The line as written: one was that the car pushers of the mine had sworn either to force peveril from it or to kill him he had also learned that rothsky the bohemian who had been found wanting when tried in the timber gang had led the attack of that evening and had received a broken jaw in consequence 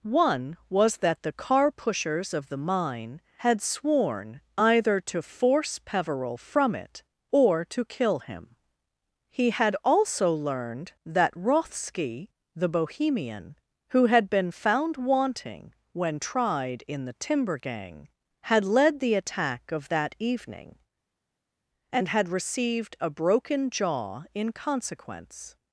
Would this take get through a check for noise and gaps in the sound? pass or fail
pass